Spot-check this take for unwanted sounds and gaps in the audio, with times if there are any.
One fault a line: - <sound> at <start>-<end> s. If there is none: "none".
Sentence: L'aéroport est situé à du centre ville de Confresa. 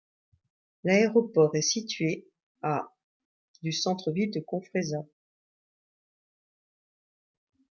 none